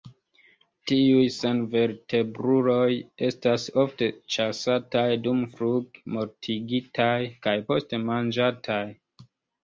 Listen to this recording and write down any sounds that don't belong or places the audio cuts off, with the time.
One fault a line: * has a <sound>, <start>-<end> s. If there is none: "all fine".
all fine